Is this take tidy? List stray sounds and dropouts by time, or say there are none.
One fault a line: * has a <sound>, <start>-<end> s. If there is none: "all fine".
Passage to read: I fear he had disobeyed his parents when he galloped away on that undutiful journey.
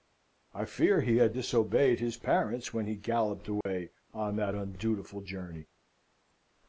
* has a dropout, 3.6-3.7 s